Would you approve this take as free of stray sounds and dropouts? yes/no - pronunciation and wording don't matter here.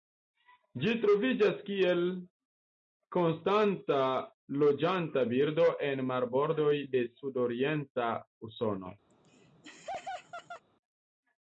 no